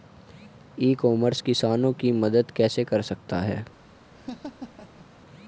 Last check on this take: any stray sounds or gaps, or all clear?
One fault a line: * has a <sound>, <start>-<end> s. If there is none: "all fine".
* has a laugh, 4.1-5.1 s